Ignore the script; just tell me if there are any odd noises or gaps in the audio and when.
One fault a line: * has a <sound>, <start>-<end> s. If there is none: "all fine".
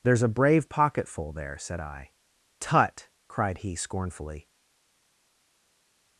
all fine